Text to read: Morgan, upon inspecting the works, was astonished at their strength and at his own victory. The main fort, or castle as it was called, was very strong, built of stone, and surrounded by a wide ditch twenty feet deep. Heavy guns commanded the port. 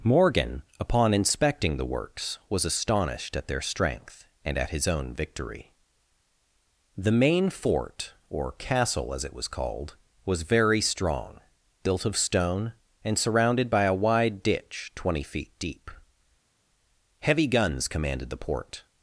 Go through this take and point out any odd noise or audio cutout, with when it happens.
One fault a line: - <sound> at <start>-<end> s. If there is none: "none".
none